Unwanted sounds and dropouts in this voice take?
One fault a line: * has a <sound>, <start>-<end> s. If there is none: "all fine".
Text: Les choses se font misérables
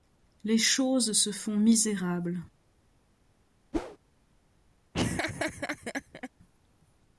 * has a whoosh, 3.7-4.0 s
* has a laugh, 4.9-6.3 s